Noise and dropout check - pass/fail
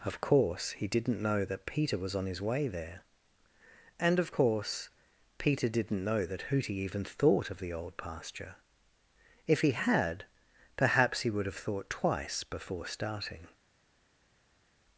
pass